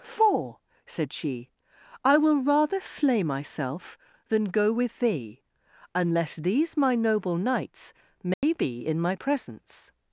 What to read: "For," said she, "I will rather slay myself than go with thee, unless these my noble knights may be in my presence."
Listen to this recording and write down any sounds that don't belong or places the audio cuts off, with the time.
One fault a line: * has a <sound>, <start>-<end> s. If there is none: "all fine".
* has a dropout, 8.3-8.4 s